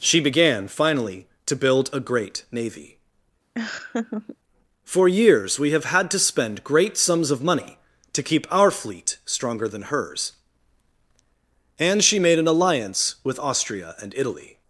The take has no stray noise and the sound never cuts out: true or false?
false